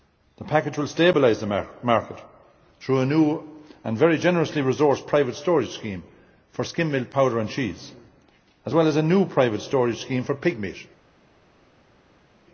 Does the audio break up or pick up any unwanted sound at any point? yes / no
no